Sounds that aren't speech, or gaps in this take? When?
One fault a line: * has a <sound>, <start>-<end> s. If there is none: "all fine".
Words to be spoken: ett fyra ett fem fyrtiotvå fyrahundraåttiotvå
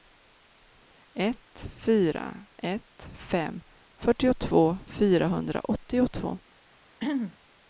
* has a throat clearing, 7.0-7.4 s